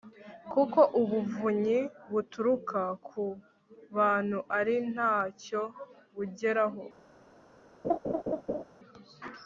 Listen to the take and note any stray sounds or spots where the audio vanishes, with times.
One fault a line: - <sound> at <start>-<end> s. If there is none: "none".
- laugh at 7.8-8.6 s